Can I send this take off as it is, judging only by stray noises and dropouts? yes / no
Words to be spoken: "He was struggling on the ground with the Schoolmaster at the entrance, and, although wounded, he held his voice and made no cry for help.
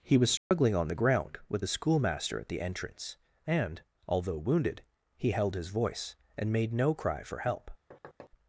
no